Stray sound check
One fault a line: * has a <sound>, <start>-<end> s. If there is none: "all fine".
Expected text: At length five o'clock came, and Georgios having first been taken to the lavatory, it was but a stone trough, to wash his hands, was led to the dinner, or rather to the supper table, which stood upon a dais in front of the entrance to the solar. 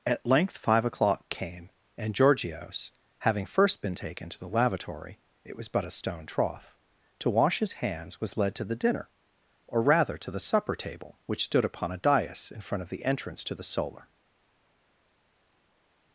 all fine